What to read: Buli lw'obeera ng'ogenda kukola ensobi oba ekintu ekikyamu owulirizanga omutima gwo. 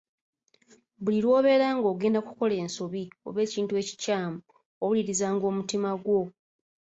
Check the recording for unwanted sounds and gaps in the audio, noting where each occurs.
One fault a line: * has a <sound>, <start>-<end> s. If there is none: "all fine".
all fine